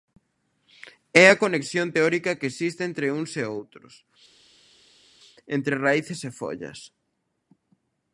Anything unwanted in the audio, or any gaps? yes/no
no